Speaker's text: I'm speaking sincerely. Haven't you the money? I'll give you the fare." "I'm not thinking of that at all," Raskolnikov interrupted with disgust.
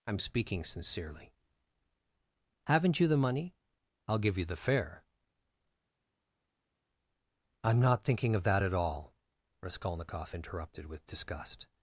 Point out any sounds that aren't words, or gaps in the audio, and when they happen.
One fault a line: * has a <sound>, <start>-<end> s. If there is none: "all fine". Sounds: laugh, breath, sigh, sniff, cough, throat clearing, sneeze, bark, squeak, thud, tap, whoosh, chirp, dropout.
all fine